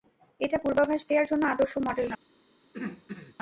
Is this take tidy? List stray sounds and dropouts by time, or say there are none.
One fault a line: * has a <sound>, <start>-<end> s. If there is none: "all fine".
* has a throat clearing, 2.7-3.4 s